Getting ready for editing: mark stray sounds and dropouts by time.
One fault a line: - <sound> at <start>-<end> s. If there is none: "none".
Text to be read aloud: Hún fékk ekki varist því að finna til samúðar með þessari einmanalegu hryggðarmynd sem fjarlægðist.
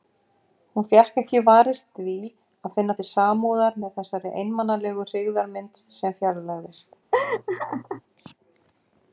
- laugh at 7.1-8.0 s